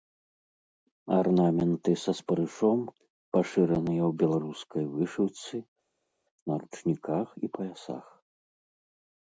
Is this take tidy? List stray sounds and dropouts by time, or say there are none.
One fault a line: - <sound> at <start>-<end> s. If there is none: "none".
none